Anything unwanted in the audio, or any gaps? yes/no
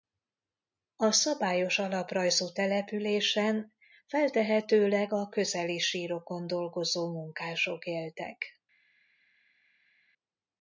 no